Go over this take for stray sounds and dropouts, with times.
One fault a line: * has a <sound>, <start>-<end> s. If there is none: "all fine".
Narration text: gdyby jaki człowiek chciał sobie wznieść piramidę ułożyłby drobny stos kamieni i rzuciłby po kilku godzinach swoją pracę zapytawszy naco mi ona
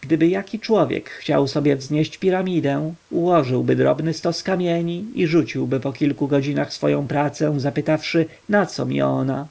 all fine